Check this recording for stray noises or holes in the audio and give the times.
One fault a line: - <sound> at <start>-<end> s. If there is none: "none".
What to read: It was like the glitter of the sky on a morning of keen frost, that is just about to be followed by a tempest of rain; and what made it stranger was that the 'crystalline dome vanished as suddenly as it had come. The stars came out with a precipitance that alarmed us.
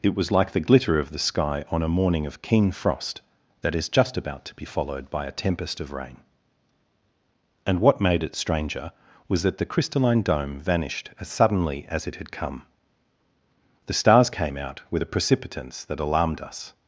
none